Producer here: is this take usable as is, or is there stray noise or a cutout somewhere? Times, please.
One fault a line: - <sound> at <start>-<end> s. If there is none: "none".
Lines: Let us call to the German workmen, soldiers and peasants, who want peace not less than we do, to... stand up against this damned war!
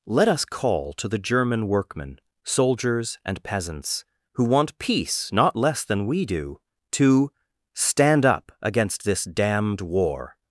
none